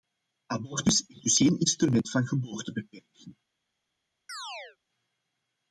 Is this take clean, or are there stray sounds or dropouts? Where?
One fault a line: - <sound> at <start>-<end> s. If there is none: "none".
- chirp at 4.3-4.8 s